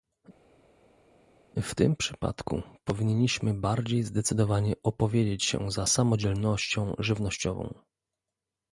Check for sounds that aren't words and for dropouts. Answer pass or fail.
pass